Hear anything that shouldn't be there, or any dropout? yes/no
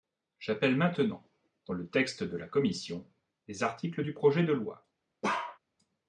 yes